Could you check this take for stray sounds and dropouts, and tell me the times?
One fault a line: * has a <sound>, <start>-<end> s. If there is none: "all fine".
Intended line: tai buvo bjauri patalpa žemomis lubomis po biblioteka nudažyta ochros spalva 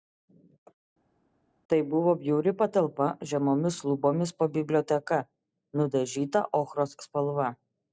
all fine